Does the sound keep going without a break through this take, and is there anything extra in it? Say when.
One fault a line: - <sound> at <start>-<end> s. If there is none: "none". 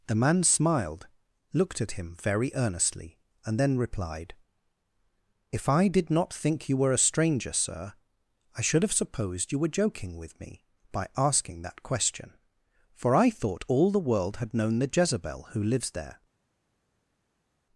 none